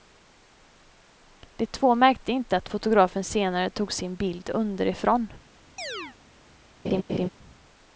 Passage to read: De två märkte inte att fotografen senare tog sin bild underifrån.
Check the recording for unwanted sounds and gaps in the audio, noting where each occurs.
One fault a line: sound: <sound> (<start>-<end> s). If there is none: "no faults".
sound: chirp (5.8-6.2 s)
sound: laugh (6.8-7.3 s)